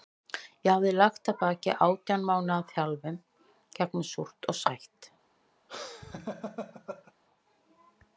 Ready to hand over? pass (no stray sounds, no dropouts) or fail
fail